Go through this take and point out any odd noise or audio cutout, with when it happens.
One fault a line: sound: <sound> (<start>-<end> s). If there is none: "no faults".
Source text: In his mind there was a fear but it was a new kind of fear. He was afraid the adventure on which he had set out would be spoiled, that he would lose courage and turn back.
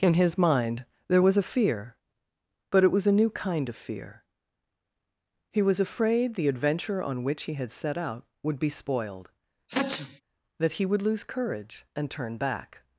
sound: sneeze (9.7-10.2 s)